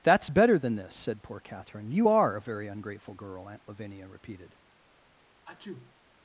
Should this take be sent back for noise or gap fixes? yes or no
yes